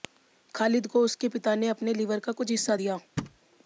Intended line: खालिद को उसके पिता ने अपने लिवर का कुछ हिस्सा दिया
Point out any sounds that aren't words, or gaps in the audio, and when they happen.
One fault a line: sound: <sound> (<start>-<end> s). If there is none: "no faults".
sound: thud (3.2-3.4 s)